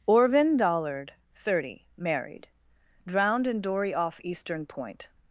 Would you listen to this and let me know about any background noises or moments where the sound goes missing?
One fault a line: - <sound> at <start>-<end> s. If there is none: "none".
none